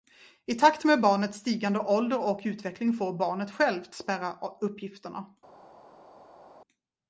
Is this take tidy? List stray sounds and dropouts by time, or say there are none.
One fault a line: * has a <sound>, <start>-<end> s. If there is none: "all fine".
all fine